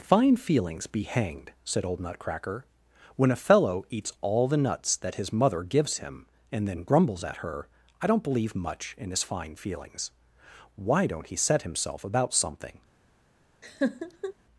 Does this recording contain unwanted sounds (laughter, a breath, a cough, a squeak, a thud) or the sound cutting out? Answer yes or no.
yes